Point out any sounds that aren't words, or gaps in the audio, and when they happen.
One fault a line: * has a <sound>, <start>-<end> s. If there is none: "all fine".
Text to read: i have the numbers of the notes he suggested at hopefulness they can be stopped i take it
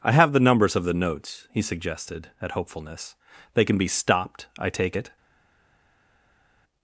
all fine